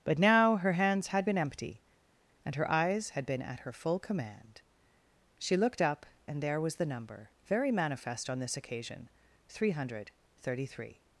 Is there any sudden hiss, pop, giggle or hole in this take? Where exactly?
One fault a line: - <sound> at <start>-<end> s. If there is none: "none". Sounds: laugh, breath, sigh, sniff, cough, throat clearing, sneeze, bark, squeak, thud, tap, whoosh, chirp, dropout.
none